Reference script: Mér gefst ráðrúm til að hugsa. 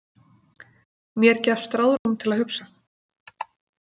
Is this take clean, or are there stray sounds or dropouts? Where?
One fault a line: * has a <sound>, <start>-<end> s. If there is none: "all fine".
* has a dropout, 2.0-2.1 s